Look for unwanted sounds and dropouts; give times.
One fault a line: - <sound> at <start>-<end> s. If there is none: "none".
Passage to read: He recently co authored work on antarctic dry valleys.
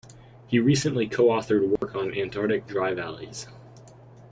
- dropout at 1.8-1.8 s